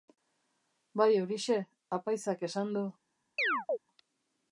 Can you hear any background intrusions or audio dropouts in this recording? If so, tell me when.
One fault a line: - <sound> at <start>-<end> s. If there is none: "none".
- chirp at 3.4-3.8 s